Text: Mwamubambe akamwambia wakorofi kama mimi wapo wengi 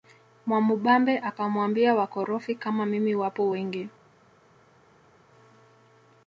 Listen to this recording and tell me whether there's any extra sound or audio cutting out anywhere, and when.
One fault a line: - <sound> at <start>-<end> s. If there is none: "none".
none